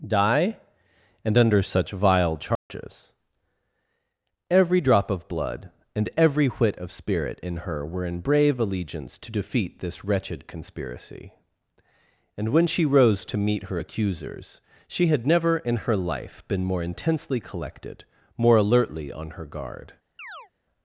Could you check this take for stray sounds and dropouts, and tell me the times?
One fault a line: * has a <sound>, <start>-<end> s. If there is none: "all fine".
* has a dropout, 2.6-2.7 s
* has a chirp, 20.2-20.5 s